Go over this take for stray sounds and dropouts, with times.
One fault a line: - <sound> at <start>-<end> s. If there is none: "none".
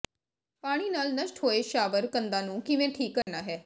- dropout at 3.2-3.3 s